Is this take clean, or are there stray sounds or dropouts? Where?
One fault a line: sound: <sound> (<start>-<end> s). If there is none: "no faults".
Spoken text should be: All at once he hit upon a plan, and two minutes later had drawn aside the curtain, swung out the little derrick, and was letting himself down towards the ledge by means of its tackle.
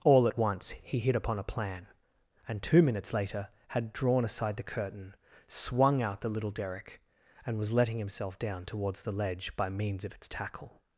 no faults